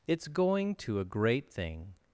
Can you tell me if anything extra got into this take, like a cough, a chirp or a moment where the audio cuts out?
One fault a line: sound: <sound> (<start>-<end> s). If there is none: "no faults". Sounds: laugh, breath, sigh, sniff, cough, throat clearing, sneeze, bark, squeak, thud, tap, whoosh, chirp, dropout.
no faults